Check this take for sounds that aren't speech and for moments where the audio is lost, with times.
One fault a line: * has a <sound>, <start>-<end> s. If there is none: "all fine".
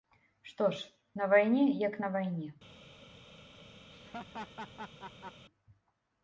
* has a laugh, 3.9-5.4 s